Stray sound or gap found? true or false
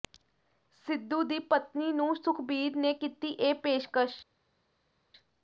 false